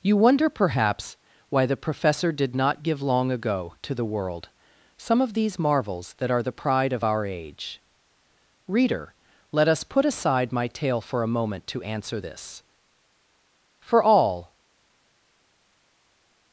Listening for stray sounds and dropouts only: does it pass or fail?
pass